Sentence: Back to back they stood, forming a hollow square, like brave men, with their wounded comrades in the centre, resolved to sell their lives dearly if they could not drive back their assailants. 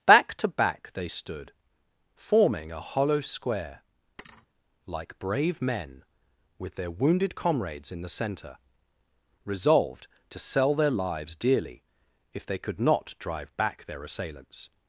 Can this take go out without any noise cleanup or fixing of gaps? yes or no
no